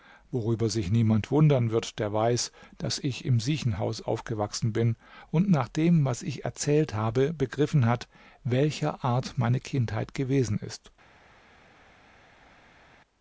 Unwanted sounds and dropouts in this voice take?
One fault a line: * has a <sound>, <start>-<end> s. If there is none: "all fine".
all fine